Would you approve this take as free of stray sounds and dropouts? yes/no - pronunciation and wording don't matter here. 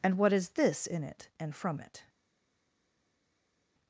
yes